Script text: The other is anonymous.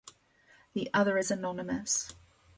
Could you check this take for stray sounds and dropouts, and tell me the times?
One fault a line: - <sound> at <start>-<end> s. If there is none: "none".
none